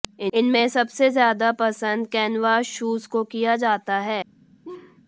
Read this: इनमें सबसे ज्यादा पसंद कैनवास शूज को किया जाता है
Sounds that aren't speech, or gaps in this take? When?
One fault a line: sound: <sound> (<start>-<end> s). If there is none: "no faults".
sound: laugh (4.6-5.0 s)